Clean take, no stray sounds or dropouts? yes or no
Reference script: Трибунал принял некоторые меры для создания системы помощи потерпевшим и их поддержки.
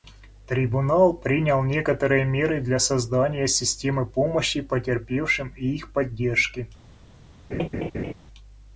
no